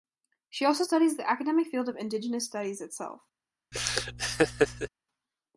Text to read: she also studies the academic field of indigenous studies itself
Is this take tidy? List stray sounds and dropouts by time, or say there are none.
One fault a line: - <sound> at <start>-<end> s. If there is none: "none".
- laugh at 3.7-4.9 s